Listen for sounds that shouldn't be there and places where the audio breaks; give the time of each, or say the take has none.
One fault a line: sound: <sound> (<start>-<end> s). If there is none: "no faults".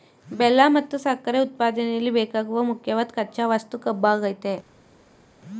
no faults